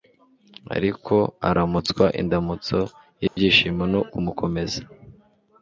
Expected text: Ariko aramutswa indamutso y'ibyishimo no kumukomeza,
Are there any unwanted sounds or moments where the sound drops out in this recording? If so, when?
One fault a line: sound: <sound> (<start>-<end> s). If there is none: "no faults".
sound: dropout (3.3-3.4 s)